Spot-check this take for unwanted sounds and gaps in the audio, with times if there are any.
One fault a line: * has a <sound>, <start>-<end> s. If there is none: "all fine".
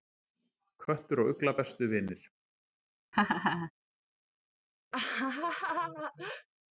* has a laugh, 3.1-3.7 s
* has a laugh, 4.9-6.5 s